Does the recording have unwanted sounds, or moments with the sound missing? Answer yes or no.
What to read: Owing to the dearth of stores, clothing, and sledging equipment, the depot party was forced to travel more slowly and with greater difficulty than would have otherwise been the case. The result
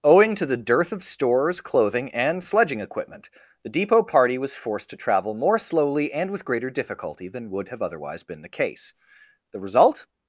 no